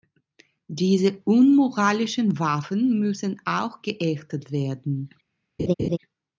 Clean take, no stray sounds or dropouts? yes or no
no